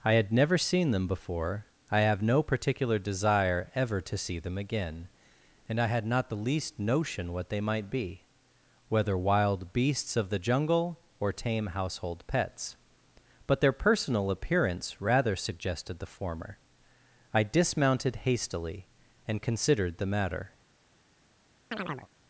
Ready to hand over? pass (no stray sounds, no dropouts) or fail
fail